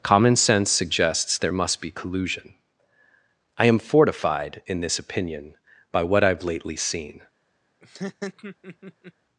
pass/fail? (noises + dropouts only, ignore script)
fail